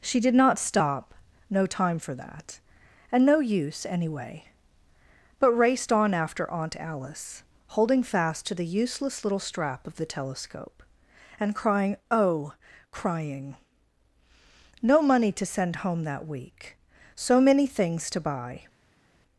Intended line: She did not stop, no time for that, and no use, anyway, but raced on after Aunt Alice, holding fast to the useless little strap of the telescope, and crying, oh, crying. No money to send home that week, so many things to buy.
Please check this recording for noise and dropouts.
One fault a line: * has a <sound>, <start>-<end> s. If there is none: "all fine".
all fine